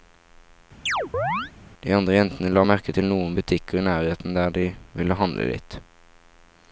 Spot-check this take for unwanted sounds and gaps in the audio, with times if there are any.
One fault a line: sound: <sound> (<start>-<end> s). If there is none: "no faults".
sound: chirp (0.9-1.5 s)